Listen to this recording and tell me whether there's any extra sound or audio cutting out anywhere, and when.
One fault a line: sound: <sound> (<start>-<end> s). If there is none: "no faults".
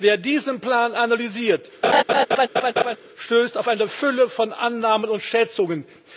sound: laugh (1.8-3.0 s)